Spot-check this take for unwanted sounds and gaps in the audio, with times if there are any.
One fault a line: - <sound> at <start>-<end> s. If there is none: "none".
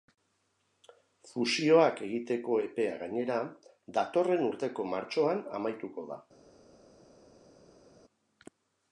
none